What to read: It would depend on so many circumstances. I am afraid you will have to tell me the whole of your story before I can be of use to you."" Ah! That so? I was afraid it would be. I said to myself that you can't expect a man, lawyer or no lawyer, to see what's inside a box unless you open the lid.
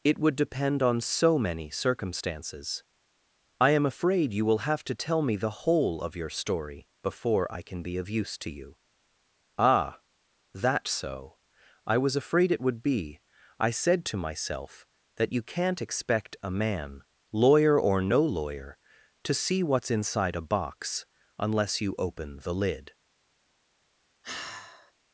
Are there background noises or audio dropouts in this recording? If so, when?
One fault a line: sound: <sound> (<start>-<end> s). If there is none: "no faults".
sound: sigh (24.2-24.9 s)